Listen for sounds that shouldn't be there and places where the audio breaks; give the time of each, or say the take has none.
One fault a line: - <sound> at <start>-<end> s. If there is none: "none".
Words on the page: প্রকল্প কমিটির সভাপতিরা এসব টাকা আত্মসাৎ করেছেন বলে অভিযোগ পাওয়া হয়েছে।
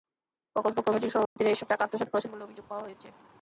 - dropout at 1.3-1.4 s